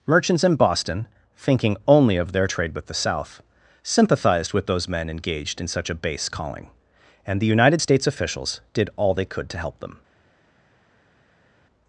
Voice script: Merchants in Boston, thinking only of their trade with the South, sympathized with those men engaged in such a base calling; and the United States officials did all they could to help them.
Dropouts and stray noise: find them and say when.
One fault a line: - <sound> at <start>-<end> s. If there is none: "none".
none